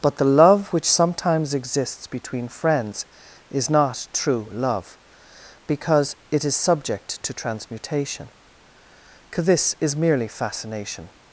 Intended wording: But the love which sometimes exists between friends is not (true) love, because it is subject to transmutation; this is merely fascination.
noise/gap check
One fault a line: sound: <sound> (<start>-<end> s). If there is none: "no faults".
no faults